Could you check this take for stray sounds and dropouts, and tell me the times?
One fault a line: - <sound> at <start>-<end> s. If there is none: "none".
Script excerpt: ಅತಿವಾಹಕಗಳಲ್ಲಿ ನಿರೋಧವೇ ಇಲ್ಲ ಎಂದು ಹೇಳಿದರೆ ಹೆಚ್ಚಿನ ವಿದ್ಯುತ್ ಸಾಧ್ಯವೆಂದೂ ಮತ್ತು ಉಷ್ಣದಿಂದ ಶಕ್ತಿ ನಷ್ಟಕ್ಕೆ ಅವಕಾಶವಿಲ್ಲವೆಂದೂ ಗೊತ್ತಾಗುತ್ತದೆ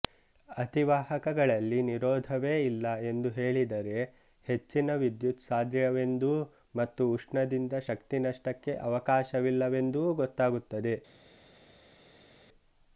none